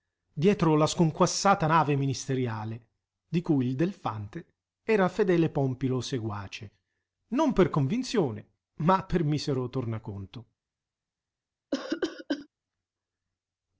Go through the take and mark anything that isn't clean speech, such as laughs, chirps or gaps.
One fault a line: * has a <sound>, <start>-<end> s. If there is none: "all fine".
* has a cough, 11.7-12.5 s